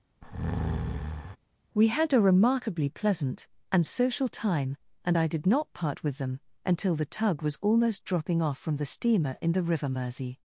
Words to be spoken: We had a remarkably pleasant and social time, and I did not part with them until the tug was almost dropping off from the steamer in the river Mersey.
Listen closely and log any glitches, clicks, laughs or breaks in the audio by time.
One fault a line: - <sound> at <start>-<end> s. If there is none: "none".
- breath at 0.2-1.4 s